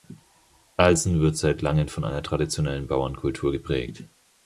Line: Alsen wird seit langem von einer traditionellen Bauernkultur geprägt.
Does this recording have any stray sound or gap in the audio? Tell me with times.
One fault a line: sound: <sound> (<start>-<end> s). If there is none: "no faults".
no faults